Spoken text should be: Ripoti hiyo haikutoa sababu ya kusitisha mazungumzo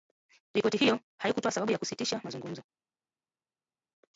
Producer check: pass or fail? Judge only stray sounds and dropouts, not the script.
pass